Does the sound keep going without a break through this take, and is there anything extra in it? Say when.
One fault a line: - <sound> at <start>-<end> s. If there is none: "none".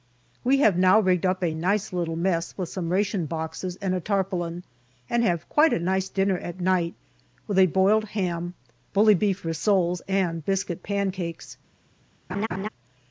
- laugh at 12.3-12.7 s